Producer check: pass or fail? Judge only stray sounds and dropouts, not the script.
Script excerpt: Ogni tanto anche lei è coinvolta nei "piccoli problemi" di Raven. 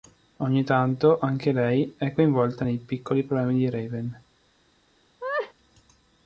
fail